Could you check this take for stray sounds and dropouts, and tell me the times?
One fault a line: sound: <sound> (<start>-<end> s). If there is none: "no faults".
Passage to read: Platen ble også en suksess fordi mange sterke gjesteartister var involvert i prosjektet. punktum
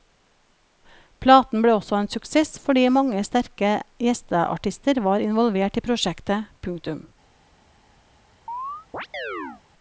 sound: chirp (8.5-9.6 s)